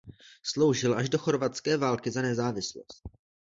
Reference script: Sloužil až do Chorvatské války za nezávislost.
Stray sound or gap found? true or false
false